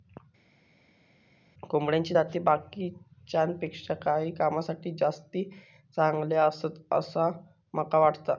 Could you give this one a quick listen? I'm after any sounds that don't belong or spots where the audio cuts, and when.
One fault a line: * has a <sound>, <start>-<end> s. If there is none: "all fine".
all fine